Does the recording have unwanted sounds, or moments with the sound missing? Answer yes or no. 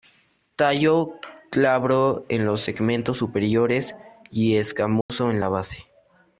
yes